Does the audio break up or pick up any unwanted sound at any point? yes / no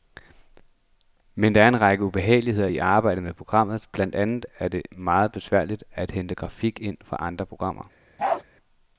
yes